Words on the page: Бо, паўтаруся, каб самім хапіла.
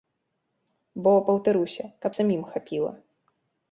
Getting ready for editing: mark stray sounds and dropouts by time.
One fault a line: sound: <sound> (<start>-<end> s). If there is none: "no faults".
no faults